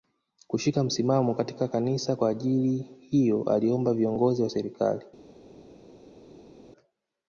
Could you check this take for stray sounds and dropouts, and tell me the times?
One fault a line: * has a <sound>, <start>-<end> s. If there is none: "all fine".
all fine